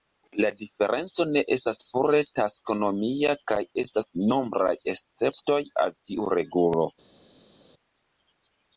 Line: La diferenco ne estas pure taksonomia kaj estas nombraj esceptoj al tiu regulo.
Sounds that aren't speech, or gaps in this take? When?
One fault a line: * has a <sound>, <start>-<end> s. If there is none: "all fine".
all fine